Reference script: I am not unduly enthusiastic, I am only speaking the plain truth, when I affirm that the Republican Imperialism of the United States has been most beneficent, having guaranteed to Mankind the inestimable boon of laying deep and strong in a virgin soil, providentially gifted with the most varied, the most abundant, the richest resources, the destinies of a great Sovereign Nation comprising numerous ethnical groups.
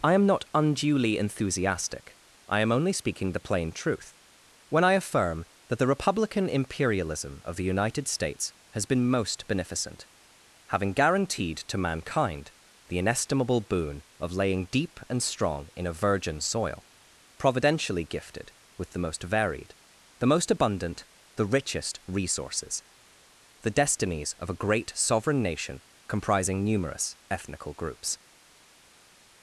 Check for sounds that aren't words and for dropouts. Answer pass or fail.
pass